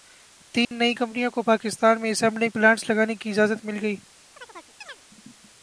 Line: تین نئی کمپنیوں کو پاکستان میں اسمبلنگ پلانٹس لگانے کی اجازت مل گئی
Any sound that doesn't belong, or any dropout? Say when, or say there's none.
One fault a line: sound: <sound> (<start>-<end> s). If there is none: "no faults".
sound: dropout (0.6-0.7 s)
sound: chirp (4.3-5.0 s)